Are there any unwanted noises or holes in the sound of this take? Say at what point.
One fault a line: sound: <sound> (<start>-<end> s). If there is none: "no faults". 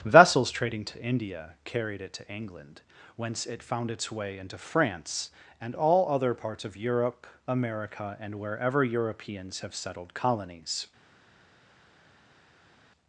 no faults